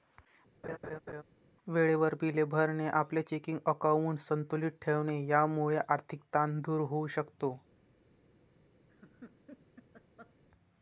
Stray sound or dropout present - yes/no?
yes